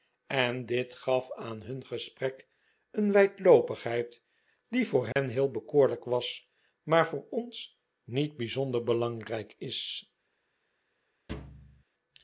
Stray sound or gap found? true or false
true